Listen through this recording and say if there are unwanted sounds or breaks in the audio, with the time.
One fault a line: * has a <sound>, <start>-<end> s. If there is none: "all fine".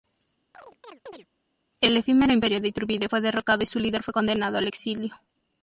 * has a chirp, 0.5-1.3 s